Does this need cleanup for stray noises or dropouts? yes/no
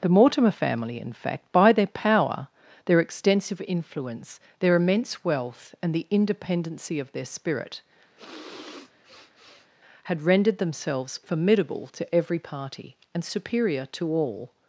yes